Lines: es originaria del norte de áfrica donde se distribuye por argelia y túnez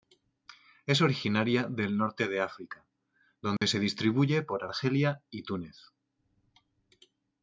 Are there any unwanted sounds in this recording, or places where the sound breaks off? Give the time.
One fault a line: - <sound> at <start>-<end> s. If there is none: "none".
- dropout at 3.6-3.6 s